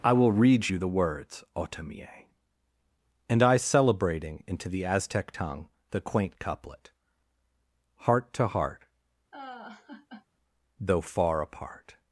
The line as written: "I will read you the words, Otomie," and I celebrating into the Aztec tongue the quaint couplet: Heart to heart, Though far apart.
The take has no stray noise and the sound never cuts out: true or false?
false